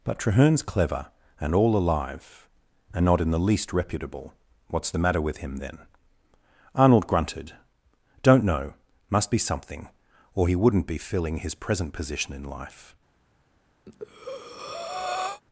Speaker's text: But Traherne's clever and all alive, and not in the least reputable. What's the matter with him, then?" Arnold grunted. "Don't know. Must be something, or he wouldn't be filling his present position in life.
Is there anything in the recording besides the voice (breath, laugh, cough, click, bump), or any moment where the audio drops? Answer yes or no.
yes